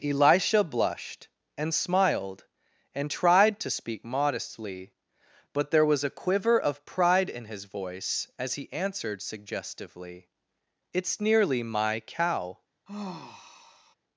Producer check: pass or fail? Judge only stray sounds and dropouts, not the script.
fail